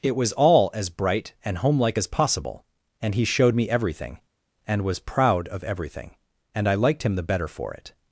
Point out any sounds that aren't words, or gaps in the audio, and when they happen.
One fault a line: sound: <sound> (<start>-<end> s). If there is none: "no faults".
no faults